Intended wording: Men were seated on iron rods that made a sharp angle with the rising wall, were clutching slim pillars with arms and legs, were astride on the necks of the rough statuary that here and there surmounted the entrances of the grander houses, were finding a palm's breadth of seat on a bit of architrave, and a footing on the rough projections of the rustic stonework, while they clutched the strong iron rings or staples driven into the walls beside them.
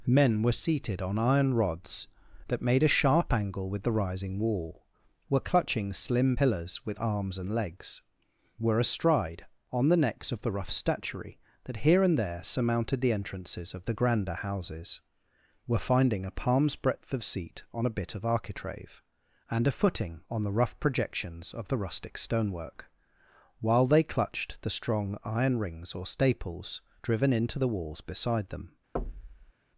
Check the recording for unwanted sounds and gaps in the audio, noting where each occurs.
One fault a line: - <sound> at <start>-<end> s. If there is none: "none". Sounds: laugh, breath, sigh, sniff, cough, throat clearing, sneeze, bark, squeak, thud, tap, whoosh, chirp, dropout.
- thud at 28.9-29.5 s